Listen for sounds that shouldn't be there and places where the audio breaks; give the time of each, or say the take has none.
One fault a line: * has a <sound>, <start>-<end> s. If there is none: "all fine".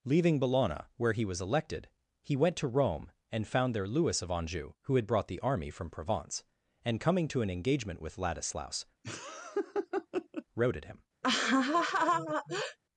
* has a laugh, 9.0-10.4 s
* has a laugh, 11.2-12.8 s